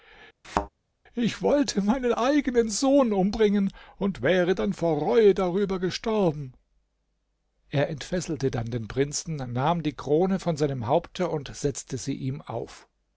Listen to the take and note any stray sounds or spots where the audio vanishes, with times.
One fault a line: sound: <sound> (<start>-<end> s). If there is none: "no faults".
sound: thud (0.4-0.7 s)